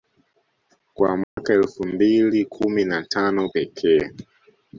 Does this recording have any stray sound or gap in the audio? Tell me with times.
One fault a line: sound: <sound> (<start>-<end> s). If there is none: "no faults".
sound: dropout (1.2-1.4 s)